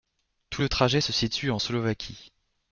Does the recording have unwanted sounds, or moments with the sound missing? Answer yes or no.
no